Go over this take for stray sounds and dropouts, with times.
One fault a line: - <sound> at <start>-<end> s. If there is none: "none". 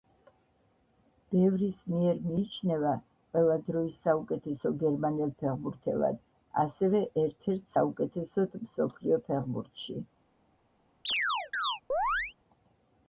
- chirp at 11.0-12.3 s